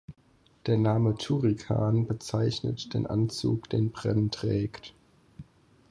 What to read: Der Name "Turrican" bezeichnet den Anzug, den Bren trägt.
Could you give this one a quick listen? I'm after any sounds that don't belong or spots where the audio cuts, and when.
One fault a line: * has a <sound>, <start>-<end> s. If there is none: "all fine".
all fine